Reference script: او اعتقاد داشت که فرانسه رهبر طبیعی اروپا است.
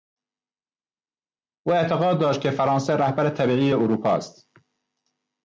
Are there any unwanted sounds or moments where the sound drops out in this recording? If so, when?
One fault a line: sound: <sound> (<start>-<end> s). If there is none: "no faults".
no faults